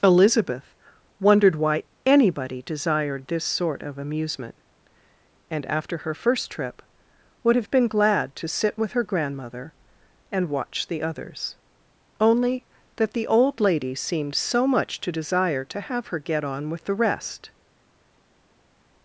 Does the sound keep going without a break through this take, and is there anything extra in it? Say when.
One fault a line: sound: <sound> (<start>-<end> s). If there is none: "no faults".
no faults